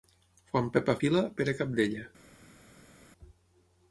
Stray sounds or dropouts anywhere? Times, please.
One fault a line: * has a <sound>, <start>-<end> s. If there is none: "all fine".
all fine